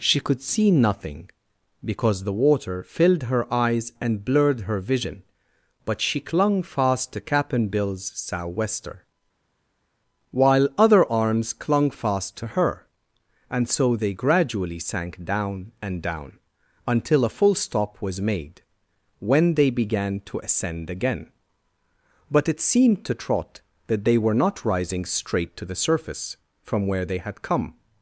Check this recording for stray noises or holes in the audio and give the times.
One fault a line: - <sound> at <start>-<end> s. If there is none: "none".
none